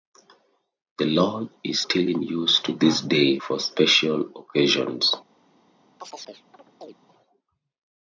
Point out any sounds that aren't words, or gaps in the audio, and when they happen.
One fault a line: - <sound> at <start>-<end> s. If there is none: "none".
- chirp at 6.0-7.0 s